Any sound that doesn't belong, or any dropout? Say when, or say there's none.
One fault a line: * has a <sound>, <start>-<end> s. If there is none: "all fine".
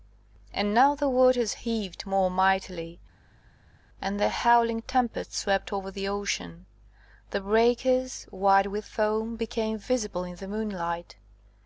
all fine